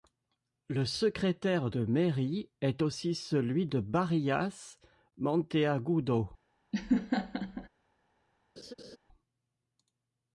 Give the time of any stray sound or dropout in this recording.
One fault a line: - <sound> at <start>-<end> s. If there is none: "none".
- laugh at 6.7-7.7 s
- laugh at 8.6-9.0 s